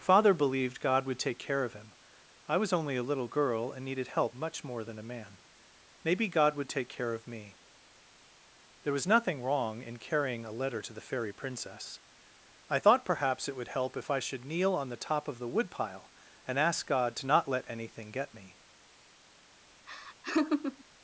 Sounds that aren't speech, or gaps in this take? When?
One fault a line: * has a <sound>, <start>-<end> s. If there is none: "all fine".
* has a laugh, 19.9-20.8 s